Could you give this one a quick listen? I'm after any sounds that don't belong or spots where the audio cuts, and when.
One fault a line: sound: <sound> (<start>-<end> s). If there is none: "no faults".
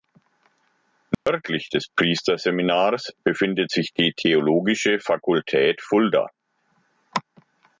sound: dropout (1.1-1.3 s)